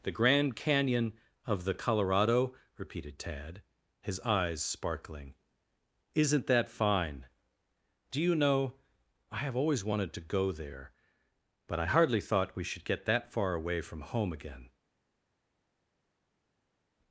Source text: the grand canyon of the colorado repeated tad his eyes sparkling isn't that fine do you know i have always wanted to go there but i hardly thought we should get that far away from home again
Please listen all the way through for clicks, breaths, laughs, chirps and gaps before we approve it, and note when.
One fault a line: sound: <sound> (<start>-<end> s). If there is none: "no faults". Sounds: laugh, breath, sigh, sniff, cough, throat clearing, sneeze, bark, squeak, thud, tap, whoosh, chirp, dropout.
no faults